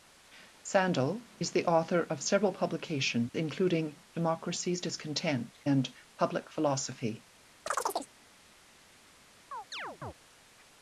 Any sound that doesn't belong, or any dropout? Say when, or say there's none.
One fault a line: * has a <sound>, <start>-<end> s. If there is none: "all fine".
* has a chirp, 7.7-8.1 s
* has a chirp, 9.5-10.1 s